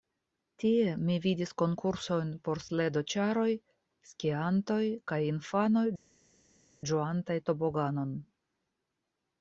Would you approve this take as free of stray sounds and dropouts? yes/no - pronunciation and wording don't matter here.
yes